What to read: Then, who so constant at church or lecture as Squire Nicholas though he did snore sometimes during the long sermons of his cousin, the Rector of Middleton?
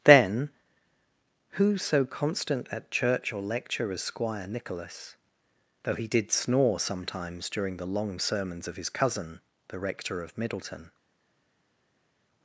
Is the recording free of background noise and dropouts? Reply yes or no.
yes